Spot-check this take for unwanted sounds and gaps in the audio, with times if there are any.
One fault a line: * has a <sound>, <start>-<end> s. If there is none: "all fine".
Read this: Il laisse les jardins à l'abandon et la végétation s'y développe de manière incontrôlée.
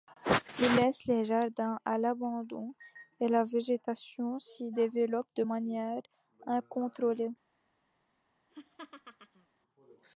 * has a laugh, 8.5-9.5 s